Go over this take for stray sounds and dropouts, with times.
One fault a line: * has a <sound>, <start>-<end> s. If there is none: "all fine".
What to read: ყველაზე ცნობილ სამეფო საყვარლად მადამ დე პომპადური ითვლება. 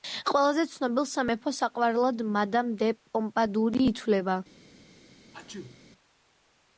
* has a sneeze, 5.3-5.8 s